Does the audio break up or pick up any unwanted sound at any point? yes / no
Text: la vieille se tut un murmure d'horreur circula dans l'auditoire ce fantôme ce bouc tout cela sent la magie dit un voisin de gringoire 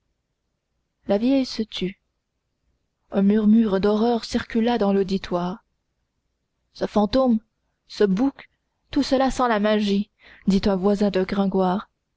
no